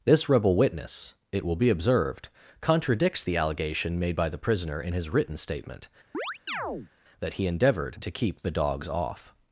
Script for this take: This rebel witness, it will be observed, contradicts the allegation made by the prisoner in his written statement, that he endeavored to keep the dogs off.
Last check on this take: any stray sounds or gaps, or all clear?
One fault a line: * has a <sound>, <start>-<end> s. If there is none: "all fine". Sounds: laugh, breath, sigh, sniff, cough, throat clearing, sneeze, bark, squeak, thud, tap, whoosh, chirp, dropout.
* has a chirp, 6.1-6.9 s